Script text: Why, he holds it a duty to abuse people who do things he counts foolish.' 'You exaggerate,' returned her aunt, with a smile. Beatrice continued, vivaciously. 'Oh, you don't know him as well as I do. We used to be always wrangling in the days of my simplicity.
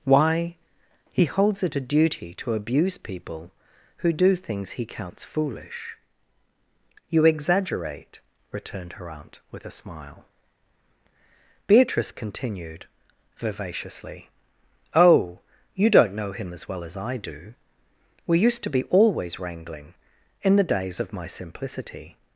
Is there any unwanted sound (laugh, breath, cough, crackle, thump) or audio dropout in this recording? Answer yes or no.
no